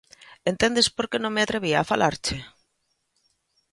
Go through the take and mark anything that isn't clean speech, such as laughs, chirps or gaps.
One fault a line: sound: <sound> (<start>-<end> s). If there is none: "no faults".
no faults